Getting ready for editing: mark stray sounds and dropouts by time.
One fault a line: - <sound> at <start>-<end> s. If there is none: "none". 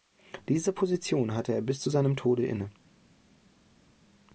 none